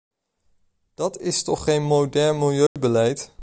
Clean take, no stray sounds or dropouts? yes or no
no